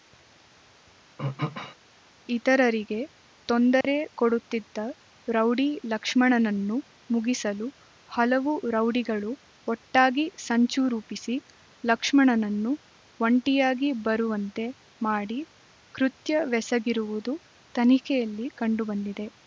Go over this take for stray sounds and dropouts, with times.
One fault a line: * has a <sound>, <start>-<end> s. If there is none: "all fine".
* has a throat clearing, 1.2-1.8 s
* has a dropout, 3.8-3.8 s